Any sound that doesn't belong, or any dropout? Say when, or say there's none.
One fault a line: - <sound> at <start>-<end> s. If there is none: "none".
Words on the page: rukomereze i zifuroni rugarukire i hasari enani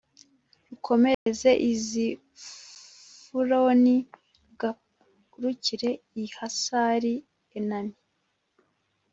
- dropout at 1.1-1.3 s